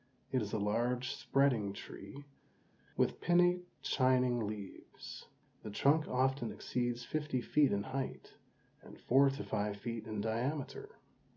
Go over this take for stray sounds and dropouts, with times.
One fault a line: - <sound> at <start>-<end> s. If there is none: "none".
none